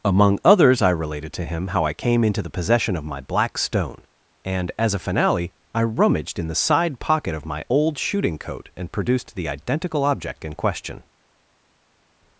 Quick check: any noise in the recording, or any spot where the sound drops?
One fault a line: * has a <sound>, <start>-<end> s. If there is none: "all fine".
all fine